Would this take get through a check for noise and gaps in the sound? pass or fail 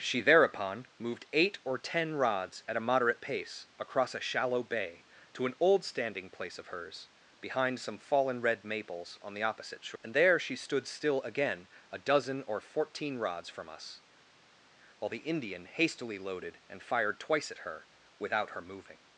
pass